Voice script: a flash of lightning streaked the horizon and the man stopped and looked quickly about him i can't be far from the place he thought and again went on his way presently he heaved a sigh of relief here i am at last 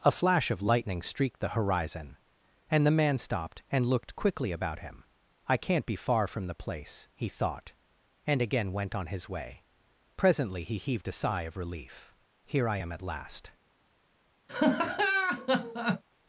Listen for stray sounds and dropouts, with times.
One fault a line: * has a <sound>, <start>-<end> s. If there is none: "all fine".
* has a laugh, 14.5-16.0 s